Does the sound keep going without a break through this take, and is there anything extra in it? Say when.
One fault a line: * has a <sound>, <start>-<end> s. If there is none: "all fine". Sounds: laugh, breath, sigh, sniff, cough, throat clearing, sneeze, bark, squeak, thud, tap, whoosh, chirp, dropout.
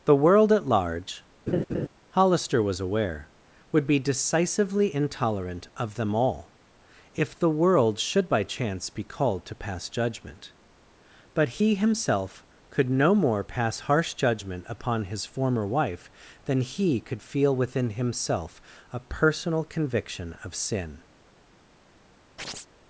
* has a laugh, 1.5-1.9 s
* has a chirp, 22.4-22.7 s